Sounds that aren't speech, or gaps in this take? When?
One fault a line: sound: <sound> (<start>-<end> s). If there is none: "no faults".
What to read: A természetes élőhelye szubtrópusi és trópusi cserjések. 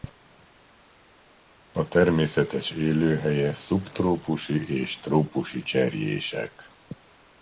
no faults